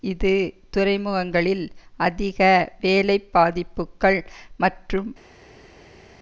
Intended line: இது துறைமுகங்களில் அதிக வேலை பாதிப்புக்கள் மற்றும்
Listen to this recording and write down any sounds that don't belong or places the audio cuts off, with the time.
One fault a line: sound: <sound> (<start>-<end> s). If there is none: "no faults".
no faults